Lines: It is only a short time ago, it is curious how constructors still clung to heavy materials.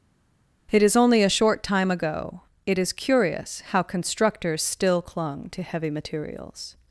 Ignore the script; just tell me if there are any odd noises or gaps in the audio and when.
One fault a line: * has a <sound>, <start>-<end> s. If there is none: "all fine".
all fine